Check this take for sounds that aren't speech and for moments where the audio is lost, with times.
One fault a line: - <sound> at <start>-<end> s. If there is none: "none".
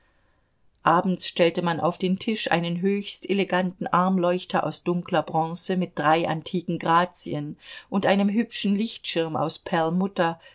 none